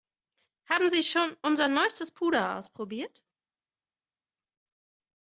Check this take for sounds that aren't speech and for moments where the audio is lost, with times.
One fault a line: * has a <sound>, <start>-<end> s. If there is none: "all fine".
all fine